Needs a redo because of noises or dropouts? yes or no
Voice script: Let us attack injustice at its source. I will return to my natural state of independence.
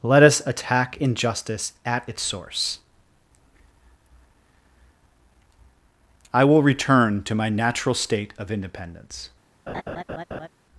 yes